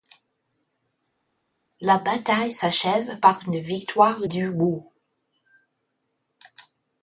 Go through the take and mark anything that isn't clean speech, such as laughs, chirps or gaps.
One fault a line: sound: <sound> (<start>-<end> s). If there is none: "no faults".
no faults